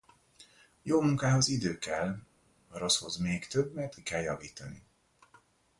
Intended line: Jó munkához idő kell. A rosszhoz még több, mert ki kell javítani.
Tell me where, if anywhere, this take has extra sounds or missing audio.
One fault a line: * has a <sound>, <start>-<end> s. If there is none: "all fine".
all fine